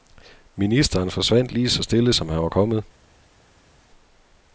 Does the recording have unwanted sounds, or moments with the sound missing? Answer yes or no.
no